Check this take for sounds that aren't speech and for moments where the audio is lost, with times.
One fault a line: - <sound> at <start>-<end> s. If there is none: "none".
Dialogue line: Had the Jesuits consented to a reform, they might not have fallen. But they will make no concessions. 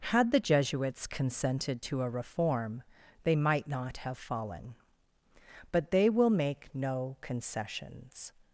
none